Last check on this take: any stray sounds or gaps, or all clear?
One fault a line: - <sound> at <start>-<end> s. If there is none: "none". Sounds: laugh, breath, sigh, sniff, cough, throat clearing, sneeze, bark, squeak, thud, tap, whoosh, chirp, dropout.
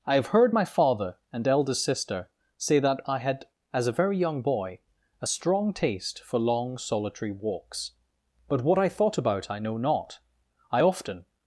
none